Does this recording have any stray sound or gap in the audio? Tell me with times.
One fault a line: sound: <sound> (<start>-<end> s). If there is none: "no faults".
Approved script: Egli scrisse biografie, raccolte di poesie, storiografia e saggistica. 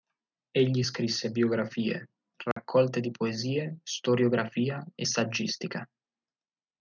sound: dropout (2.5-2.6 s)